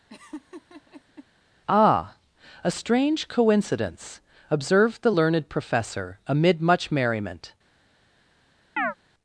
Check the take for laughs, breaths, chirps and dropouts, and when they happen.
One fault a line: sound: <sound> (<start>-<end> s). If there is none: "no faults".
sound: laugh (0.1-1.3 s)
sound: chirp (8.8-8.9 s)